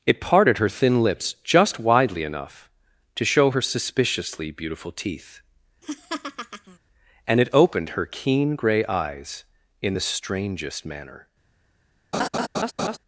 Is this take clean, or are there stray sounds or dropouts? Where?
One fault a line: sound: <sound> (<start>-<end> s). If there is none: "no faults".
sound: laugh (5.8-6.8 s)
sound: laugh (12.1-13.0 s)